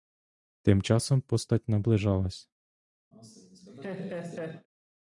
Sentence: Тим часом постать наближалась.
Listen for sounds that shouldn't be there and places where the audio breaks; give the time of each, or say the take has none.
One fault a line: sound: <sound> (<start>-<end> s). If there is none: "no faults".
sound: laugh (3.1-4.7 s)